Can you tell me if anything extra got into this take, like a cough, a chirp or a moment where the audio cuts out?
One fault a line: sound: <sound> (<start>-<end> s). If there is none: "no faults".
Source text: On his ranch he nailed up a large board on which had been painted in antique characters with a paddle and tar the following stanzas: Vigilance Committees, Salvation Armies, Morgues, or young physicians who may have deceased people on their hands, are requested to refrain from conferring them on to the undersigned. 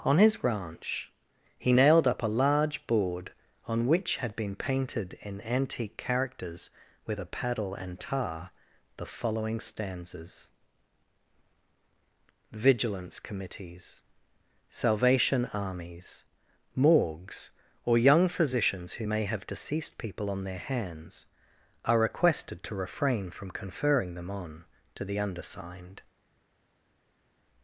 no faults